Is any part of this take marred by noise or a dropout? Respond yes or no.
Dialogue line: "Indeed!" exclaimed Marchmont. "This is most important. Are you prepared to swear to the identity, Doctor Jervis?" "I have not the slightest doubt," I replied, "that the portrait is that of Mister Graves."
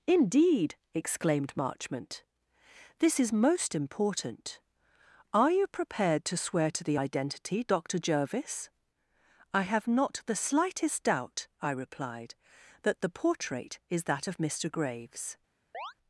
yes